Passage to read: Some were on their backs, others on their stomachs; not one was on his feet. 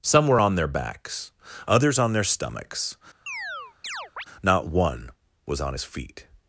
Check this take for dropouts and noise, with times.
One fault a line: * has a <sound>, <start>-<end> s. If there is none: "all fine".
* has a chirp, 3.3-4.3 s